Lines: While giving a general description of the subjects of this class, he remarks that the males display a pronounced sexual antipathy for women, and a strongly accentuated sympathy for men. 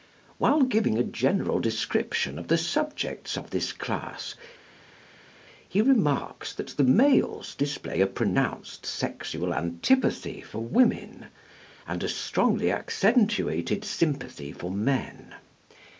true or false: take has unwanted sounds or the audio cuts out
false